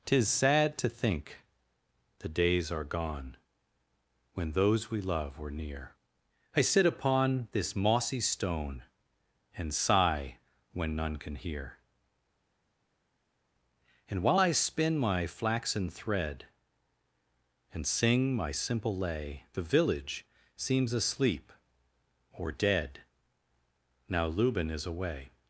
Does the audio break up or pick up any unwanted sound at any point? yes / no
no